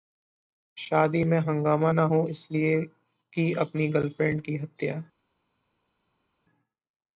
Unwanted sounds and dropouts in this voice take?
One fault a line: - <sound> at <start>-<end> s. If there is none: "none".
none